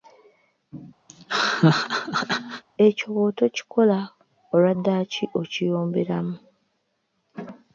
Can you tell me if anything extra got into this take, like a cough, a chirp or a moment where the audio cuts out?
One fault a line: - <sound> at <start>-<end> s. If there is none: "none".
- laugh at 1.1-2.6 s